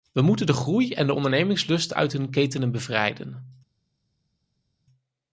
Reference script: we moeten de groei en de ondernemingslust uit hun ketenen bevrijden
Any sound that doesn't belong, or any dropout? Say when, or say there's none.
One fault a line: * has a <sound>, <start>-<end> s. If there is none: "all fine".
all fine